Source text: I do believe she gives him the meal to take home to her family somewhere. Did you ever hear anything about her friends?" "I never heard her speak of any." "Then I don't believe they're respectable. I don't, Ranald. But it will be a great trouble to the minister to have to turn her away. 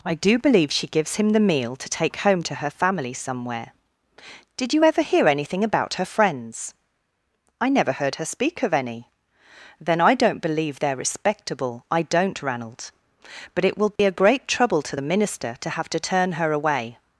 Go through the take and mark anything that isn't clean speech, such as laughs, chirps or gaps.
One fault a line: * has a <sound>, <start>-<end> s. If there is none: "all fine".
* has a dropout, 14.0-14.0 s